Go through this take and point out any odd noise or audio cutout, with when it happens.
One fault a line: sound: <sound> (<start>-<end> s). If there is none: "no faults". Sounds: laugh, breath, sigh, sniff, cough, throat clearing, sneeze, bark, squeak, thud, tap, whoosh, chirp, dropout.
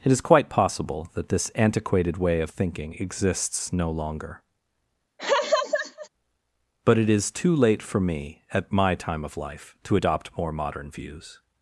sound: laugh (5.2-6.1 s)